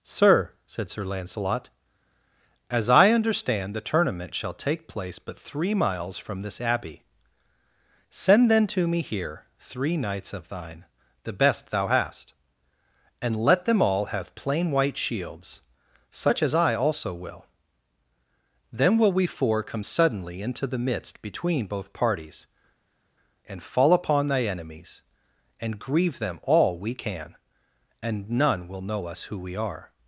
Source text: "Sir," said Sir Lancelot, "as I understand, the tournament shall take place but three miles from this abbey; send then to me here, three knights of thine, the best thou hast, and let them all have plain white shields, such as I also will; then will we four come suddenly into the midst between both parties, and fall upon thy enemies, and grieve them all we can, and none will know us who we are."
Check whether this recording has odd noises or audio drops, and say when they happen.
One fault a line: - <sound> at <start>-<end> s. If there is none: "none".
none